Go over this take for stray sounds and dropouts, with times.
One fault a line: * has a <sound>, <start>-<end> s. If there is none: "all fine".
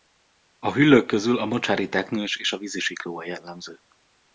all fine